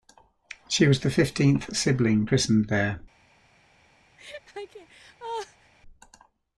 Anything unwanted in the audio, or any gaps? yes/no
yes